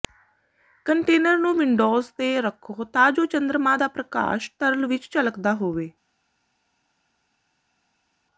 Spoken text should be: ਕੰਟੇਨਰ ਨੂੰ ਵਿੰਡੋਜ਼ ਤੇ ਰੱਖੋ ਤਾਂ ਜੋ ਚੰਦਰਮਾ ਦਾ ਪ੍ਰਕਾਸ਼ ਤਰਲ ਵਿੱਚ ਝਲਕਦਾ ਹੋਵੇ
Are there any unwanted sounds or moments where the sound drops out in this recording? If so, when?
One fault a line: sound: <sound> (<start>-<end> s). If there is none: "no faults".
no faults